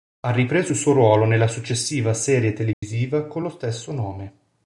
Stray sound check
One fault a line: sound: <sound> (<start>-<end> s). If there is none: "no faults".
sound: dropout (2.7-2.8 s)